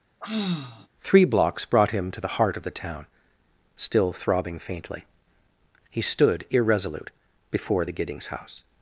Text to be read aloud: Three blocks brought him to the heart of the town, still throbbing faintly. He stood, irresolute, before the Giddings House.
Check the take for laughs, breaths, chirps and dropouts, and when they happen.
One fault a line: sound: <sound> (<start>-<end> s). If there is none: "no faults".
sound: sigh (0.2-0.9 s)